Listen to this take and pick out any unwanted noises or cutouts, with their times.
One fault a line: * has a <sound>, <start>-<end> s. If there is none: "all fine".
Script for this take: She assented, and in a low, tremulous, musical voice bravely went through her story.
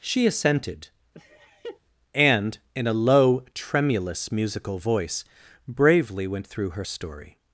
* has a laugh, 1.1-1.8 s